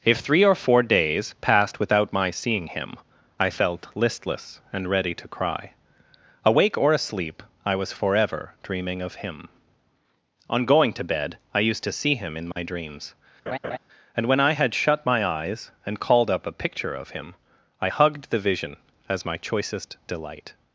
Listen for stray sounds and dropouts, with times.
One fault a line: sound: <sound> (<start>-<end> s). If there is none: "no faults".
sound: dropout (12.5-12.6 s)
sound: laugh (13.5-13.8 s)